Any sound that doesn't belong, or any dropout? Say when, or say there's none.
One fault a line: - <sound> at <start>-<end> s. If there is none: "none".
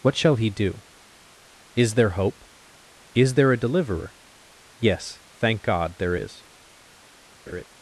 - laugh at 7.5-7.6 s